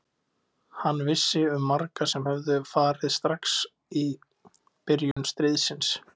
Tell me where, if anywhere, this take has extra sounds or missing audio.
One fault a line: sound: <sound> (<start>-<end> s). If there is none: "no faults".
sound: dropout (5.1-5.2 s)